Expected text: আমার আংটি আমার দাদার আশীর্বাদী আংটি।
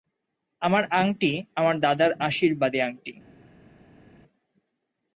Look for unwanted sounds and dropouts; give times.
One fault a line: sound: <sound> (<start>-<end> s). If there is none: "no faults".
no faults